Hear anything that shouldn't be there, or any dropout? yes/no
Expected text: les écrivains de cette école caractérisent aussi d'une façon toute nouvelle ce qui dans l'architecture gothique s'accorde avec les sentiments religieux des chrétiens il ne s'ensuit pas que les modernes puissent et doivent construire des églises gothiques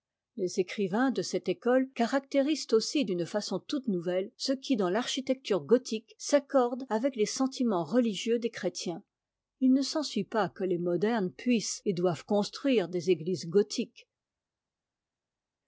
no